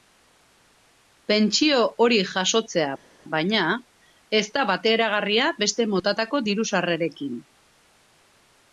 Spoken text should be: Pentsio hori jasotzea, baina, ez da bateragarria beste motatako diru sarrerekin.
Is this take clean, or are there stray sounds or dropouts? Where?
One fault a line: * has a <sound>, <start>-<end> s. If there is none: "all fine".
all fine